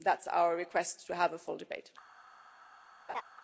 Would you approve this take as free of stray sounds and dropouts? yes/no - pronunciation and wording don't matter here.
no